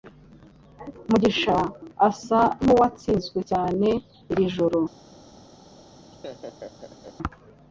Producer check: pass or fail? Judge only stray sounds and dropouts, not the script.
fail